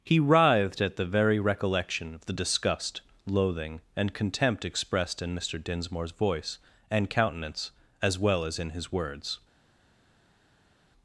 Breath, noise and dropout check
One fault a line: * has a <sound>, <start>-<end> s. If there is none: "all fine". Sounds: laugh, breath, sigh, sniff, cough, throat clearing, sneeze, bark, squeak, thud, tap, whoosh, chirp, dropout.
all fine